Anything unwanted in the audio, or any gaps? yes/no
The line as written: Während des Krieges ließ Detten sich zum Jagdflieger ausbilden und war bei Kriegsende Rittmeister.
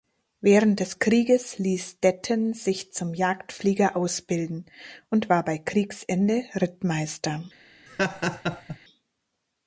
yes